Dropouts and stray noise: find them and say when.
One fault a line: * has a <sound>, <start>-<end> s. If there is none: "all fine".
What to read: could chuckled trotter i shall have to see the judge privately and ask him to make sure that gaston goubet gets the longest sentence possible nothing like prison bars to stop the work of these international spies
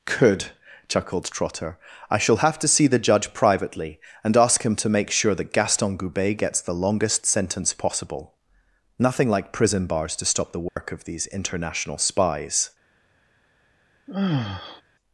* has a dropout, 10.7-10.8 s
* has a sigh, 14.1-14.8 s